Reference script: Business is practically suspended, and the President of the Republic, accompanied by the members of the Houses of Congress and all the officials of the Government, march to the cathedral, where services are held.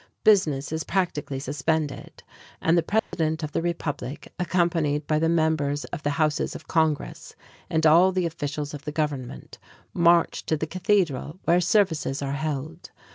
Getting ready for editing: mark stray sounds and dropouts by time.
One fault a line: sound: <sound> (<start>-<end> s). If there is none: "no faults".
sound: dropout (3.0-3.1 s)